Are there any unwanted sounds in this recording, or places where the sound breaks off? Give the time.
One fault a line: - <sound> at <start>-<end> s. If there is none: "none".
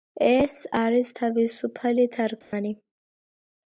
- dropout at 2.4-2.5 s